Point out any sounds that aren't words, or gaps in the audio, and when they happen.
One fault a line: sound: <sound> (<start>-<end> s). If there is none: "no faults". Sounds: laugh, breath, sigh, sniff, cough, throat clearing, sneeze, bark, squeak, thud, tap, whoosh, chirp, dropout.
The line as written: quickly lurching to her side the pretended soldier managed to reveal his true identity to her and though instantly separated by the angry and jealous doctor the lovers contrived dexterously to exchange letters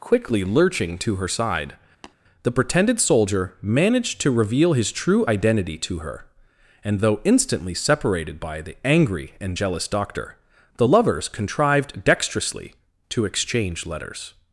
sound: tap (2.0-2.1 s)